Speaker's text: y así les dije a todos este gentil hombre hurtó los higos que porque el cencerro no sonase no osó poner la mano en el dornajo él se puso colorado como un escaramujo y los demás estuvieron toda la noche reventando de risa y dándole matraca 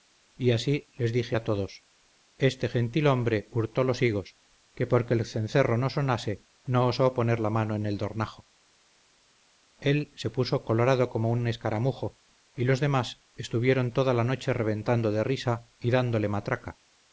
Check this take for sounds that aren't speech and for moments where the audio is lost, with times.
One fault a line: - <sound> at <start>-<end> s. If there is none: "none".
none